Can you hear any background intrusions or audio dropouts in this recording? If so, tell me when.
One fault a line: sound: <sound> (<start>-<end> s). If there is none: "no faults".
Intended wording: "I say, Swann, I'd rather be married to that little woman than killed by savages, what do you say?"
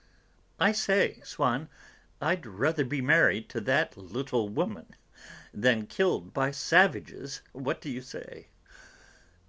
no faults